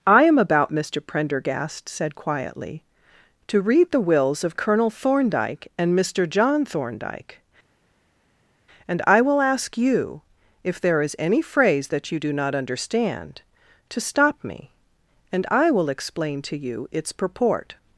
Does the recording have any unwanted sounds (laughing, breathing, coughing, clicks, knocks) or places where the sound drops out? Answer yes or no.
no